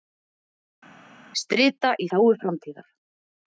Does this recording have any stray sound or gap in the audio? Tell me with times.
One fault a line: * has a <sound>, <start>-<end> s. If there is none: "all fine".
all fine